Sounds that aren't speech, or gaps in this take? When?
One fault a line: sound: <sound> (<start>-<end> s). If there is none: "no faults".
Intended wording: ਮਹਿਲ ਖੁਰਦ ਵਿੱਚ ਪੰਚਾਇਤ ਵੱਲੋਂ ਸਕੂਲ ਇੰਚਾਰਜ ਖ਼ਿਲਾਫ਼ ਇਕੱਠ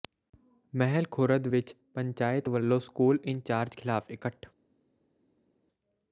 no faults